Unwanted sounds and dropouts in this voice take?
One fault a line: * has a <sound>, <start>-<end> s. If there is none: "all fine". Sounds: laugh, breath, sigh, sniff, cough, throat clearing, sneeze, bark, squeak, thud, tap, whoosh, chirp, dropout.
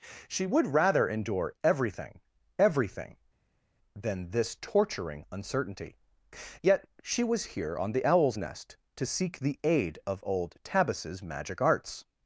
all fine